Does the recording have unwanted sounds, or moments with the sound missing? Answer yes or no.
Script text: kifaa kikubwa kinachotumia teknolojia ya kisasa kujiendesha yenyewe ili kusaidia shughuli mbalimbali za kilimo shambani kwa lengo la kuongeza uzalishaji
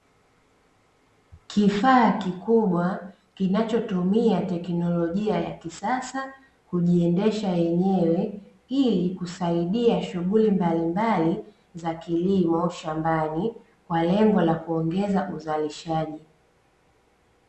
no